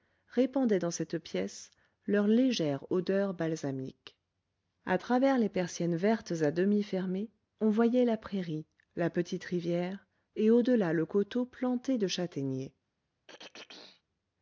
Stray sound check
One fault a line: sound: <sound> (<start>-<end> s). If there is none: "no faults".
sound: throat clearing (13.3-14.0 s)